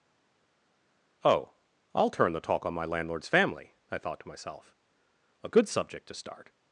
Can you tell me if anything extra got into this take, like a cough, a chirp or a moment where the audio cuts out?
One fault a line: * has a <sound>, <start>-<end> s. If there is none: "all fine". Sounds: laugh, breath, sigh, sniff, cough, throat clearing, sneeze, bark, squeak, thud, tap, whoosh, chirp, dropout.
all fine